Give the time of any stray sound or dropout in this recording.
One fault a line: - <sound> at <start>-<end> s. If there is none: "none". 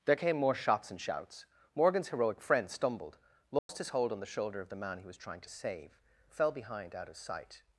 - dropout at 3.6-3.7 s